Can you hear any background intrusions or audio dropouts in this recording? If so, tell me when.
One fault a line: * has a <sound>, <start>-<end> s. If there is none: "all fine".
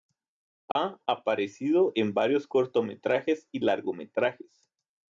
* has a dropout, 0.7-0.8 s